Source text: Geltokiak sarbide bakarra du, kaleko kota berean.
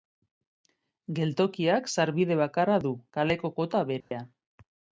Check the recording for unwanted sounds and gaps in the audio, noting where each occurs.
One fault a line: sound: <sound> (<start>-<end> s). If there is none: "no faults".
sound: dropout (4.0-4.1 s)